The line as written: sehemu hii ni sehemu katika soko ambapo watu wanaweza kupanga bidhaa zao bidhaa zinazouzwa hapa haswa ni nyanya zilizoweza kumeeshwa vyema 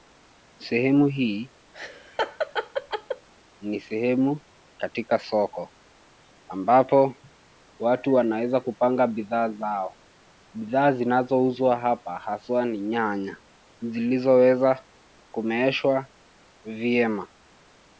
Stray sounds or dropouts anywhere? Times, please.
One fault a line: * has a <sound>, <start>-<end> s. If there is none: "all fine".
* has a laugh, 1.7-3.3 s